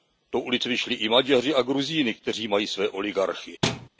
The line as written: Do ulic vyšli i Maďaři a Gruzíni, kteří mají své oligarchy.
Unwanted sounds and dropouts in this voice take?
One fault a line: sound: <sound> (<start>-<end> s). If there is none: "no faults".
sound: thud (3.6-3.9 s)